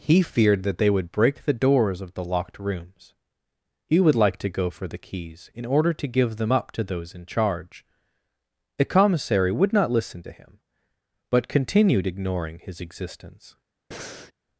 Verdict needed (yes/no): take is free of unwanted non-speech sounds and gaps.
no